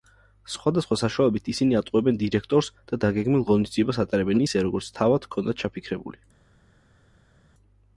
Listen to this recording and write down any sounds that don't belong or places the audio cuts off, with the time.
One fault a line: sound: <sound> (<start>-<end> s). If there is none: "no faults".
no faults